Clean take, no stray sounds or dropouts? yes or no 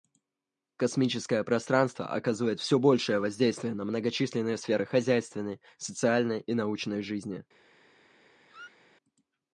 no